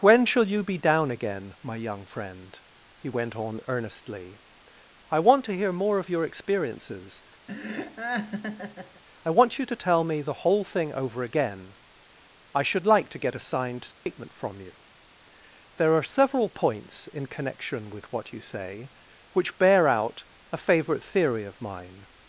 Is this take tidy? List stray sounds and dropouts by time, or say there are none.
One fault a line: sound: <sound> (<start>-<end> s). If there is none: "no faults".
sound: laugh (7.5-9.0 s)
sound: dropout (13.9-14.1 s)